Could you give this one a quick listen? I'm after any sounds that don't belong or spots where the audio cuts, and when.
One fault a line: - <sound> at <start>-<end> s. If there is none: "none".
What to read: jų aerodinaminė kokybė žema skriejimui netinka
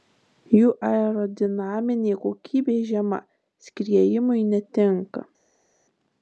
none